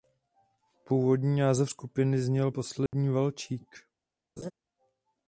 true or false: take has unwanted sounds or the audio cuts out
true